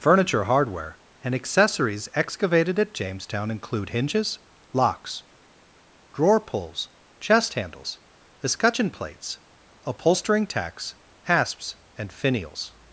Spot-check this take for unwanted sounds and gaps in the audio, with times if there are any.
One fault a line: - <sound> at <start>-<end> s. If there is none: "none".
none